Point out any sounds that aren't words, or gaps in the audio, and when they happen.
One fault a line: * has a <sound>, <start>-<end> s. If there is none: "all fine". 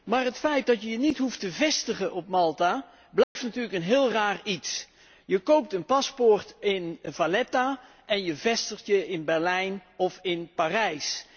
* has a dropout, 3.2-3.4 s